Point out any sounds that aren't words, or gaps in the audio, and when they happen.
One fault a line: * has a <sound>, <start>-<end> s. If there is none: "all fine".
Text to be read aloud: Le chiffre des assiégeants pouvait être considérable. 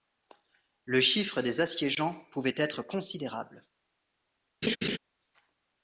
* has a laugh, 4.6-5.0 s